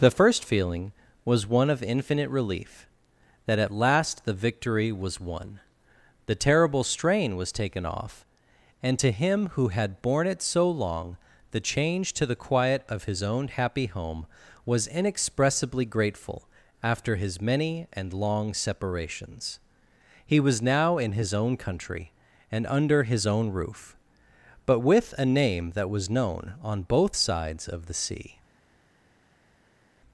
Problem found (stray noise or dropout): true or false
false